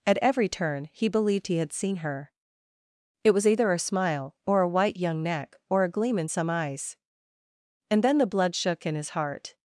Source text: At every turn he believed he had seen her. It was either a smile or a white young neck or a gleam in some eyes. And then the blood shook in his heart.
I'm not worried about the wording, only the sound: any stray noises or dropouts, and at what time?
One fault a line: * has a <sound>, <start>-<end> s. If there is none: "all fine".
all fine